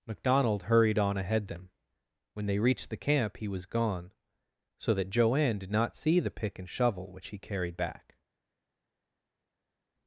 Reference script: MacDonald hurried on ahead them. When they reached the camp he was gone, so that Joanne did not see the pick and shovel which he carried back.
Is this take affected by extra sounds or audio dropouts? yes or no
no